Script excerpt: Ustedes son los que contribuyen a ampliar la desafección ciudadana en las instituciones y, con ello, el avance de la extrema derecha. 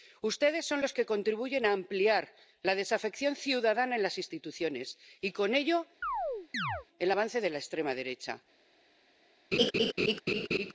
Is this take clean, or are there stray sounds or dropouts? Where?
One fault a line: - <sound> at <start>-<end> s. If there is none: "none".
- chirp at 6.0-6.9 s
- laugh at 9.5-10.7 s